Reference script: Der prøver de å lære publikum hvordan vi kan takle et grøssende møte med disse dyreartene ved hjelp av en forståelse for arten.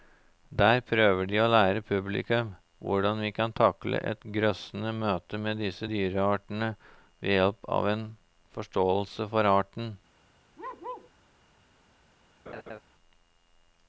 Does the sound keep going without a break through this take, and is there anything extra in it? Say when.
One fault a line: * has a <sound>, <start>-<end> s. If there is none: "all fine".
* has a bark, 10.6-11.1 s
* has a laugh, 12.5-12.8 s